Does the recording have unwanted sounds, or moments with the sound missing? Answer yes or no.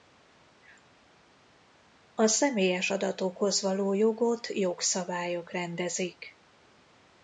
no